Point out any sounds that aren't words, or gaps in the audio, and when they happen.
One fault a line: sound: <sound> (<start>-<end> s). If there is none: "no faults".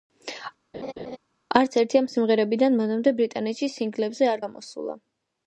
sound: laugh (0.7-1.2 s)